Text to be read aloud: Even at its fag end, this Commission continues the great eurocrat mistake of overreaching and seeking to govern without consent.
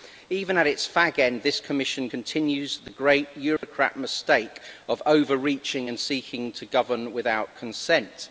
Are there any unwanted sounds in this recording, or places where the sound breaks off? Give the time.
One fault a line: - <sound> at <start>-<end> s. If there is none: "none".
- dropout at 3.6-3.6 s